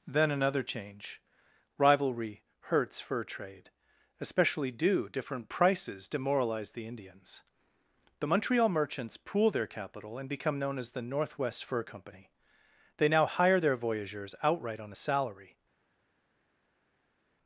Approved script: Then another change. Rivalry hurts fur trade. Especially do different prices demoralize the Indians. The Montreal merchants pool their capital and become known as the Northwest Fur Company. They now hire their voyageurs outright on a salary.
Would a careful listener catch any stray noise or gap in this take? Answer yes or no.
no